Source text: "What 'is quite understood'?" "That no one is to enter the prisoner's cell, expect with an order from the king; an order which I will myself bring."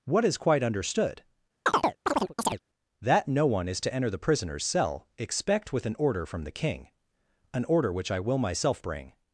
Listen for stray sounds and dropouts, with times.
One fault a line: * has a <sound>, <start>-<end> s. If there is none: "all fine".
* has a chirp, 1.7-2.6 s